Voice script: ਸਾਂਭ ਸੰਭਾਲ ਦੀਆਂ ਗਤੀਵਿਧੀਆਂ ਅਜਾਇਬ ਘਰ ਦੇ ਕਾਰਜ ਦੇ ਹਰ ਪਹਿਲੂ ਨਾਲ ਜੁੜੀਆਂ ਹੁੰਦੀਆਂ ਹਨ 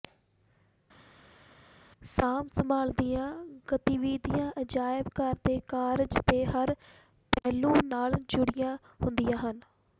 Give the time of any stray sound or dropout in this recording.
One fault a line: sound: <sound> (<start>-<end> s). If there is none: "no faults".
no faults